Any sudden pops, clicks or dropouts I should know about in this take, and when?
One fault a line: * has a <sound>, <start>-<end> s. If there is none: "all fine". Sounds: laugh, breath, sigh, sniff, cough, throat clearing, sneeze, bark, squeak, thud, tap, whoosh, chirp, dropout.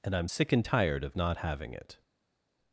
all fine